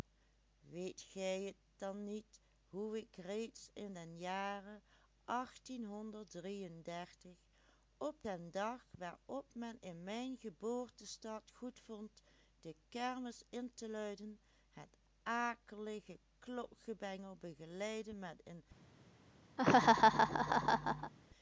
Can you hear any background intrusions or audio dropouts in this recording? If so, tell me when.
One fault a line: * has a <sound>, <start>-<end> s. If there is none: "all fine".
* has a laugh, 19.6-21.1 s